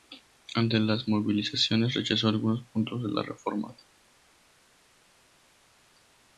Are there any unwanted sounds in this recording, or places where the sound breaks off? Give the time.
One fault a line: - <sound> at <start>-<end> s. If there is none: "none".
none